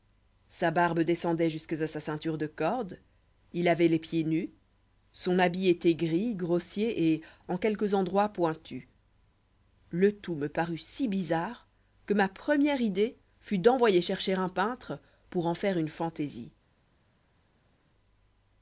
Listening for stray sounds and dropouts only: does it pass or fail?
pass